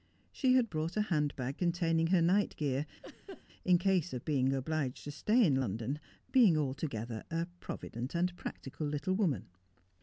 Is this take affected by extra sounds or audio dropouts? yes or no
yes